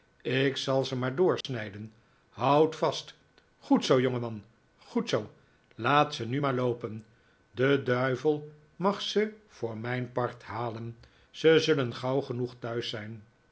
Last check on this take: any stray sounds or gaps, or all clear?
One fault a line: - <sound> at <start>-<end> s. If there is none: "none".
- dropout at 1.4-1.4 s